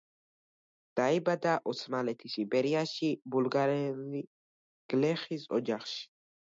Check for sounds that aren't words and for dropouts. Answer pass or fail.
pass